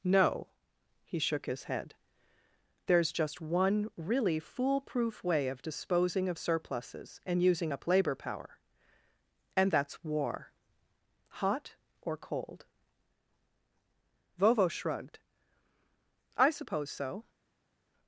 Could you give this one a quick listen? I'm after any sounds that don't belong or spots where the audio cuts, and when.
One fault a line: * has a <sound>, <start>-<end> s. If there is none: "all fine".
all fine